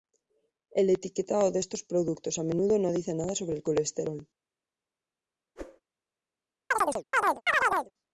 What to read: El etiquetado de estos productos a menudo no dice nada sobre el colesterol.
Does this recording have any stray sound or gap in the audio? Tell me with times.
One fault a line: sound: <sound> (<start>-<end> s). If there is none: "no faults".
sound: whoosh (5.6-5.8 s)
sound: chirp (6.7-7.9 s)